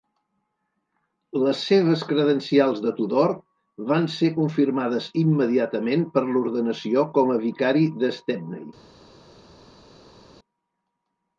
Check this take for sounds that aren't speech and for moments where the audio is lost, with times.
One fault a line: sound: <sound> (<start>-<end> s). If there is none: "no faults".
no faults